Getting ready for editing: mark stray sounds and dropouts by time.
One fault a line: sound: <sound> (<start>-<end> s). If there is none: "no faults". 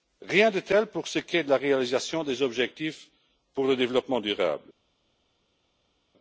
no faults